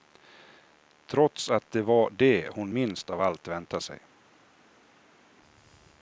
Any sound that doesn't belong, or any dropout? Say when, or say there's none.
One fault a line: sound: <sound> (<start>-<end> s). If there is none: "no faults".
no faults